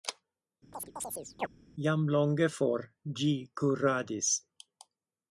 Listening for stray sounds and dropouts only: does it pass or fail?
fail